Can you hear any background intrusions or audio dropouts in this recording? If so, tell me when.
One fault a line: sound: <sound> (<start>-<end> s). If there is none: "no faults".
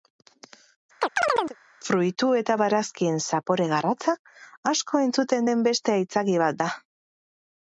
sound: chirp (1.0-1.6 s)